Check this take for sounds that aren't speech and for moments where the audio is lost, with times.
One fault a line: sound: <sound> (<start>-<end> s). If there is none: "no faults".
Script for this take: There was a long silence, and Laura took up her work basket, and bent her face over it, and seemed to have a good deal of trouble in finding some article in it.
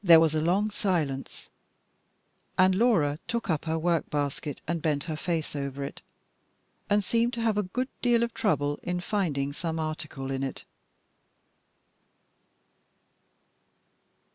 no faults